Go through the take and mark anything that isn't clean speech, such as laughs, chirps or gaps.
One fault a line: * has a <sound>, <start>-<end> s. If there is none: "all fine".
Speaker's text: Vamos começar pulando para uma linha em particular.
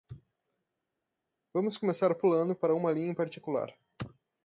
all fine